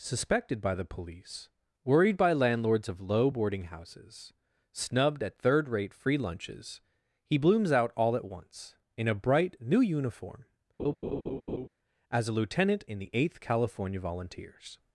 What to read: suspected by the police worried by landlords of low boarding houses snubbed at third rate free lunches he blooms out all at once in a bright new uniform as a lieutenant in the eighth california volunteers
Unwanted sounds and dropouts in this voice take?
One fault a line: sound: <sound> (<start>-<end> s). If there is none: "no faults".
sound: laugh (10.8-11.7 s)